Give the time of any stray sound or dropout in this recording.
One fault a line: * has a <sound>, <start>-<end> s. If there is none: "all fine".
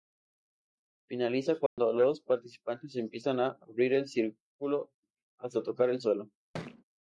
* has a dropout, 1.7-1.8 s
* has a thud, 6.5-6.8 s